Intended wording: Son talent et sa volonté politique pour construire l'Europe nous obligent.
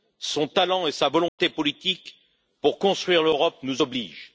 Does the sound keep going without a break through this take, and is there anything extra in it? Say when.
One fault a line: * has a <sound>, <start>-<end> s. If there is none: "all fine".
* has a dropout, 1.3-1.4 s